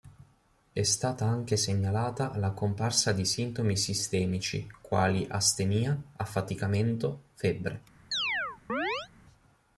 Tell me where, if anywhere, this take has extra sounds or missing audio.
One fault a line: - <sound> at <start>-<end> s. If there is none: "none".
- chirp at 8.1-9.1 s